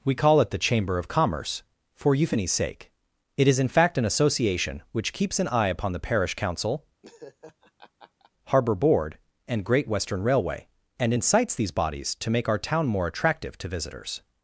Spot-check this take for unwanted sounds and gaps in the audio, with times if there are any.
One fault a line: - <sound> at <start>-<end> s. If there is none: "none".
- laugh at 7.0-8.3 s